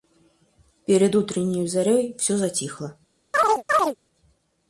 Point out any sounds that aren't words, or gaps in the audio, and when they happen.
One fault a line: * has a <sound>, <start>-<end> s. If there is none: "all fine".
* has a chirp, 3.3-4.0 s